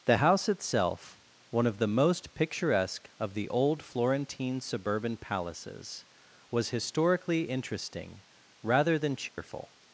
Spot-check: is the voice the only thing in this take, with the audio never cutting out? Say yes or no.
no